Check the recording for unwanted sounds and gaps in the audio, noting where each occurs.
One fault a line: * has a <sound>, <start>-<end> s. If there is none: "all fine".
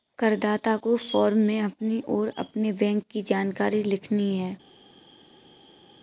all fine